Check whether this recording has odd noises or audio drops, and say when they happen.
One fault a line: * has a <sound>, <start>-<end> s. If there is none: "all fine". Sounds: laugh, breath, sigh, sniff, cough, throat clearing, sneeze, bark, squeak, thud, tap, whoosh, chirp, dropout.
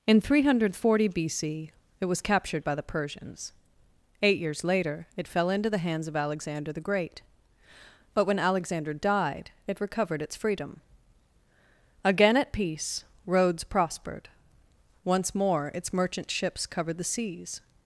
all fine